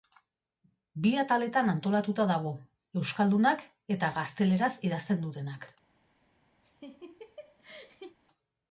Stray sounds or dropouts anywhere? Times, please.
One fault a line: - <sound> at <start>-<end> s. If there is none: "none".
- laugh at 6.6-8.2 s